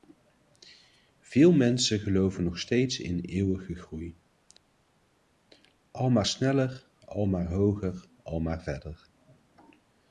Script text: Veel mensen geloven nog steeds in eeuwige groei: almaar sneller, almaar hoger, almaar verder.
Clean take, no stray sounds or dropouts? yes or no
yes